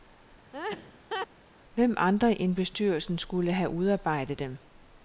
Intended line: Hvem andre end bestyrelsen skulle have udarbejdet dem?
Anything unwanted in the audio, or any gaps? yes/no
yes